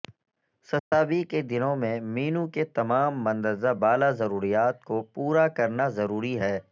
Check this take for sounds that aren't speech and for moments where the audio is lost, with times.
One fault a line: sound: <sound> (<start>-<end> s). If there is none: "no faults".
sound: dropout (0.8-0.9 s)